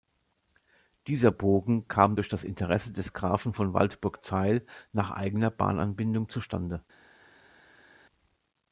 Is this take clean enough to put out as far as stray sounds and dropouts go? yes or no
yes